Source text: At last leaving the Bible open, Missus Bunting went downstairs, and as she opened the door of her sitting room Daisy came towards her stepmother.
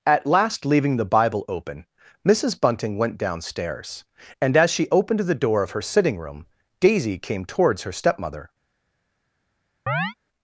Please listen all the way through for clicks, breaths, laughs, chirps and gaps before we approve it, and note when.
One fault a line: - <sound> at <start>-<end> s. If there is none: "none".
- chirp at 9.9-10.1 s